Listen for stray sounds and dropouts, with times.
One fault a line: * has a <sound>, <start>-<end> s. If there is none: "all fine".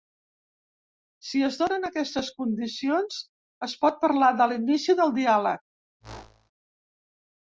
* has a whoosh, 6.0-6.5 s